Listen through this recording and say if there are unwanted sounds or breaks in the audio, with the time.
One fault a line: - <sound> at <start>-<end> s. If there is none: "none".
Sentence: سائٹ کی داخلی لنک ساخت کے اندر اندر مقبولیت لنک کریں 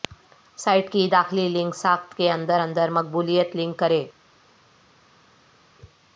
none